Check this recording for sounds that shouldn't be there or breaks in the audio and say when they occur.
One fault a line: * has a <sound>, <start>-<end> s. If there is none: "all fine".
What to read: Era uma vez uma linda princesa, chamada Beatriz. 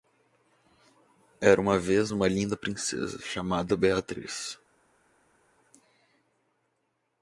all fine